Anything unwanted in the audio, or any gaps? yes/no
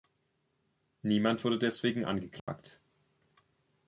yes